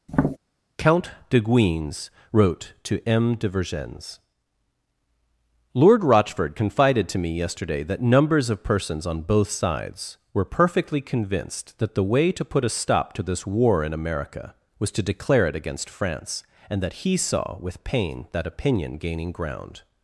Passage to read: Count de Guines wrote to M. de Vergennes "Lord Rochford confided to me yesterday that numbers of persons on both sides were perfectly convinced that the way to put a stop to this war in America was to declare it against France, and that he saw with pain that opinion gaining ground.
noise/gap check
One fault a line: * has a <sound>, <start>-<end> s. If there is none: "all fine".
* has a tap, 0.1-0.4 s